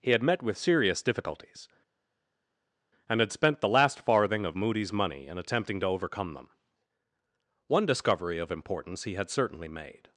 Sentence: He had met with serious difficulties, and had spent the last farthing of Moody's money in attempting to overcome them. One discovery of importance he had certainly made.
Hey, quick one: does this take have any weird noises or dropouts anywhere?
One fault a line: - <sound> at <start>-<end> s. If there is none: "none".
none